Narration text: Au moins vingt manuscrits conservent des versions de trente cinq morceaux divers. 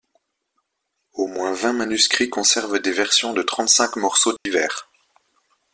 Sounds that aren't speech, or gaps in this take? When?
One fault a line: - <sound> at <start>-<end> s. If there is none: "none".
- dropout at 4.4-4.5 s